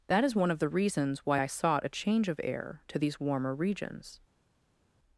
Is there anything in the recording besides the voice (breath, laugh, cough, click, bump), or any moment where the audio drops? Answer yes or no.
no